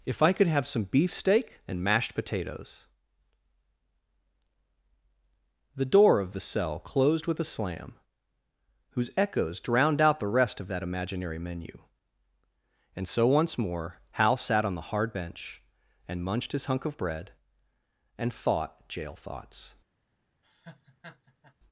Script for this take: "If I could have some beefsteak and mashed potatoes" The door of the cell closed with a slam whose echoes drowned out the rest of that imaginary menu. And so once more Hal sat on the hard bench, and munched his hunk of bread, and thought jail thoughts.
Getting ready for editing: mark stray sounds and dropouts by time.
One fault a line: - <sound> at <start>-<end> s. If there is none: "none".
- laugh at 20.4-21.5 s